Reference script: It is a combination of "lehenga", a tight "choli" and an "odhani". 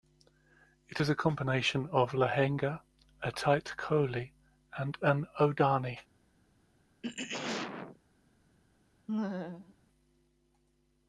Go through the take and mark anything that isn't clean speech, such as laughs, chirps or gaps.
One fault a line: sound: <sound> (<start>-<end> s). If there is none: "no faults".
sound: throat clearing (7.0-8.0 s)
sound: laugh (9.1-9.7 s)